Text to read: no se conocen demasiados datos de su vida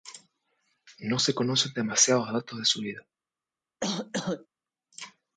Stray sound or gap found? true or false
true